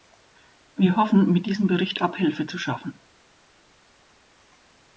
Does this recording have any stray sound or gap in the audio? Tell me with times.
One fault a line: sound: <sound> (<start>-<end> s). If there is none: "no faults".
no faults